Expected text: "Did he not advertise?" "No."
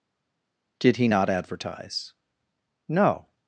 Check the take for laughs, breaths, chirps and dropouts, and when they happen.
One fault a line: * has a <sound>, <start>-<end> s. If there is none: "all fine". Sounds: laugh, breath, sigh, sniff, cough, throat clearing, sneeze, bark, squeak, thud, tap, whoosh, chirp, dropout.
all fine